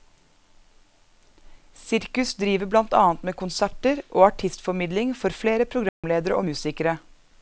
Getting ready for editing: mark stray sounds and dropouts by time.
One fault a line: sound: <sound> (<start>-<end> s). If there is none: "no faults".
sound: dropout (5.9-6.0 s)